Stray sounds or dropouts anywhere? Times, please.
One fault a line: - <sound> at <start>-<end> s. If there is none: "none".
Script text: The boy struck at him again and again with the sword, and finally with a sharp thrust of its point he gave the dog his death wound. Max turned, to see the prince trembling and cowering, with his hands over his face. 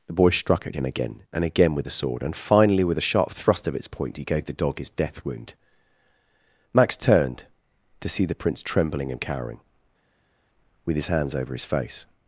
none